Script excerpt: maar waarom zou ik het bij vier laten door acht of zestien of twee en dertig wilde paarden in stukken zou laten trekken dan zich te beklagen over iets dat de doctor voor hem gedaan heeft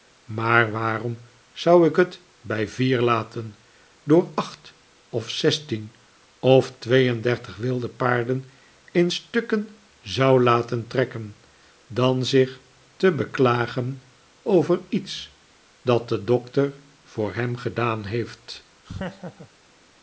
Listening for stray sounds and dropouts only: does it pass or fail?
fail